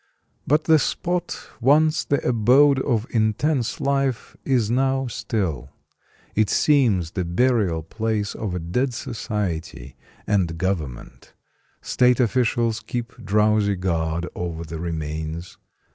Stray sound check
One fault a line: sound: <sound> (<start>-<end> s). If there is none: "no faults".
no faults